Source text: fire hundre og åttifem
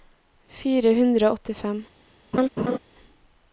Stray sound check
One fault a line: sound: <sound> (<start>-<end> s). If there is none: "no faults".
sound: laugh (2.3-2.8 s)